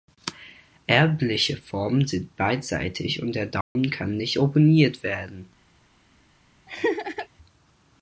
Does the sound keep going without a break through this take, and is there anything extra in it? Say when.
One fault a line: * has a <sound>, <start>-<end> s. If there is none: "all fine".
* has a dropout, 3.6-3.8 s
* has a laugh, 6.7-7.3 s